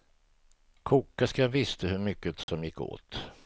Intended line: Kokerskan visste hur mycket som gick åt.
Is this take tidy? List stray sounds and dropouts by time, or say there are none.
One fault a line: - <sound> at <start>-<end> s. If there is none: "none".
- dropout at 2.4-2.5 s